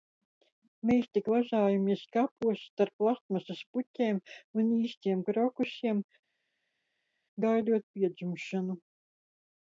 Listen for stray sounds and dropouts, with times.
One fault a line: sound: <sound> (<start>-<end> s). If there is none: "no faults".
no faults